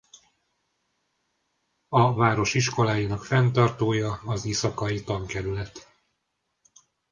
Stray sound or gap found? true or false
false